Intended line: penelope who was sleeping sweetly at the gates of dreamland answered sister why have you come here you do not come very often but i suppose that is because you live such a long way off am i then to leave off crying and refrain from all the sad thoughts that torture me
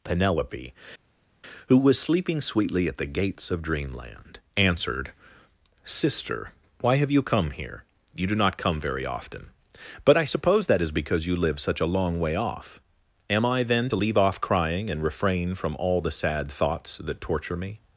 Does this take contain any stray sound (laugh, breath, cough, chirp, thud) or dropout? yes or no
no